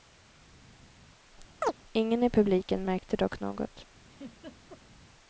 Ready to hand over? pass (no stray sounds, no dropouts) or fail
fail